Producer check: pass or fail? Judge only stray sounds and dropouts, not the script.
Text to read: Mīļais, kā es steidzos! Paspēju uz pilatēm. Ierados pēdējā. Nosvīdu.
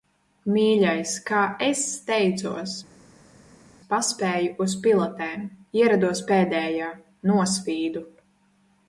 pass